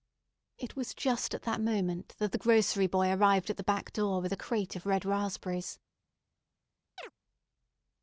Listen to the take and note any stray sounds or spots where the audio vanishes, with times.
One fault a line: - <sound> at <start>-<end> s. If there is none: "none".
- chirp at 7.0-7.1 s